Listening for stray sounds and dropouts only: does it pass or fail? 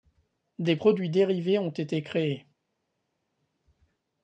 pass